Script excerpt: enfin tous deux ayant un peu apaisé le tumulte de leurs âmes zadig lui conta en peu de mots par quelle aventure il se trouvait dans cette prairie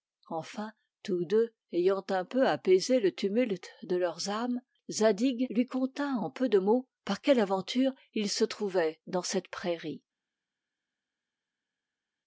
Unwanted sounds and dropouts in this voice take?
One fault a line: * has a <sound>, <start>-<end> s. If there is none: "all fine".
all fine